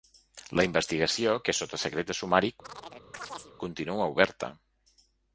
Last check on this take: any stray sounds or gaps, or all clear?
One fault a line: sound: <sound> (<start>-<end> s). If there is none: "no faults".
sound: chirp (2.6-3.6 s)